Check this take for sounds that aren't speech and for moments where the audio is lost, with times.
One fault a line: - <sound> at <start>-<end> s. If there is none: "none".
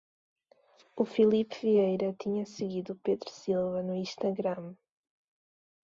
none